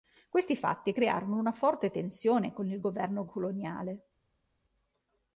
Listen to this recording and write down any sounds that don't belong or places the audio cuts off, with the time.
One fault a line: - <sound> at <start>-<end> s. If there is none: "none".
none